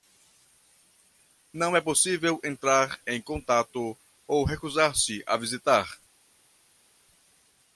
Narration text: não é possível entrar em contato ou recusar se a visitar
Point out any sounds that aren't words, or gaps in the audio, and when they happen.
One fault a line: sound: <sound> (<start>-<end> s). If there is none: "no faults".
no faults